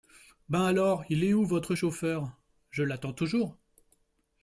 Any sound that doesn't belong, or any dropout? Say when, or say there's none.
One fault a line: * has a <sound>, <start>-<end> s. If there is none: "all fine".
all fine